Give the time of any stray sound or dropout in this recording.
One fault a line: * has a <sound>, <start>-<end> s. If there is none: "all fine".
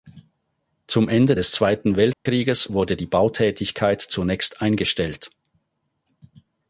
* has a dropout, 2.1-2.3 s